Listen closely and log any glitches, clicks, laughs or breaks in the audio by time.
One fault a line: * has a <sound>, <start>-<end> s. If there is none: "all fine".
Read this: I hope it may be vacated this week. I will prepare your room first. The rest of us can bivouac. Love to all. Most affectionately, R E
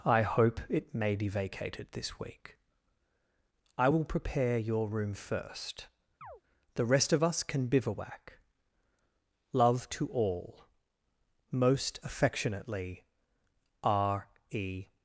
* has a chirp, 6.2-6.4 s